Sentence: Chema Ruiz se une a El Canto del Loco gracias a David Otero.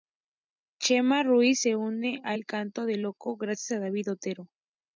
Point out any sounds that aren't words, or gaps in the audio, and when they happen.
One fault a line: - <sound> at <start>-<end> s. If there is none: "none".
none